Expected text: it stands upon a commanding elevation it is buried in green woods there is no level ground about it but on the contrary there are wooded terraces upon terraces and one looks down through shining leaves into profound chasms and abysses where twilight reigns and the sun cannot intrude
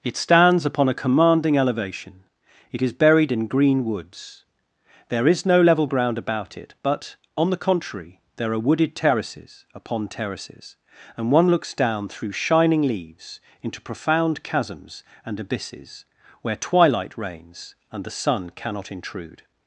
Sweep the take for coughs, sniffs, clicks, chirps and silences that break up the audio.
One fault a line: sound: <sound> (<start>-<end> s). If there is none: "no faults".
no faults